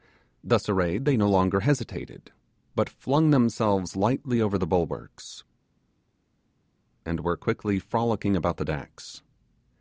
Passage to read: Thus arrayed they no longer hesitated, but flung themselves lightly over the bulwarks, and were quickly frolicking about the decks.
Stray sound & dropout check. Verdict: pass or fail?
pass